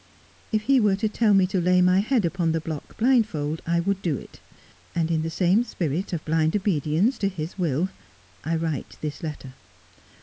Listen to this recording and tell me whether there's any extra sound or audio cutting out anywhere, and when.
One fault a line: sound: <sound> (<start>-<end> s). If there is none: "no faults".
no faults